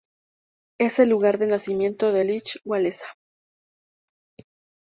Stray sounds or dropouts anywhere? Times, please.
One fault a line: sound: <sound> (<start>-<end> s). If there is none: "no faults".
no faults